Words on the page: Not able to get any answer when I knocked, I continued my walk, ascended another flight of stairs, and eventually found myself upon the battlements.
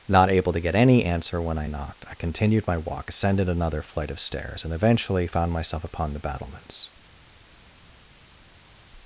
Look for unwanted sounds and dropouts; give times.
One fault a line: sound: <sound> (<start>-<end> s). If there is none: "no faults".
no faults